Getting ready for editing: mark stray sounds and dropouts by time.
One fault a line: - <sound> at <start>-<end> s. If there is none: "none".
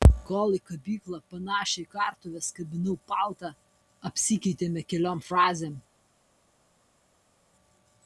none